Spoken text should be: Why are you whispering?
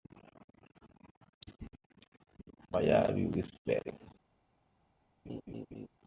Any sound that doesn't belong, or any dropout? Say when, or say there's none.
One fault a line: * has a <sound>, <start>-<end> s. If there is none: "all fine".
* has a laugh, 5.3-5.9 s